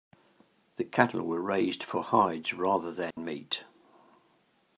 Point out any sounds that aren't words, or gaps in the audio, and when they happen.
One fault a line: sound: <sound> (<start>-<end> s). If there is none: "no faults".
sound: dropout (3.1-3.2 s)